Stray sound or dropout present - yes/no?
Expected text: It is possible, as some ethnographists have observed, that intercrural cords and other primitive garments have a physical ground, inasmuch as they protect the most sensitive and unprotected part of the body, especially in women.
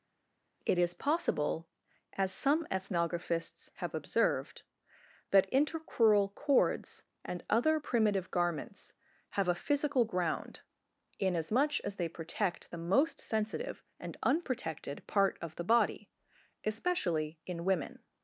no